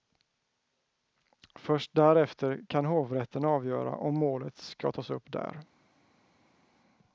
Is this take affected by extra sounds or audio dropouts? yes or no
no